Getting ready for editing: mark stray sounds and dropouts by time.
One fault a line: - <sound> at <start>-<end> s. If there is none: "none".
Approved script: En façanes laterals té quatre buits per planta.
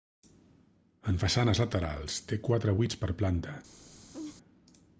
- laugh at 4.1-4.4 s